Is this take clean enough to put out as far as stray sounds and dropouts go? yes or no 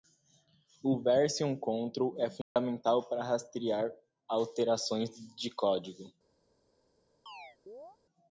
no